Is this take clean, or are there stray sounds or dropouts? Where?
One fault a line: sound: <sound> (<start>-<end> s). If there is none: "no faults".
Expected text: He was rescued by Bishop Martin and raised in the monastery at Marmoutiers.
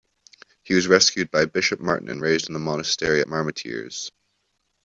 no faults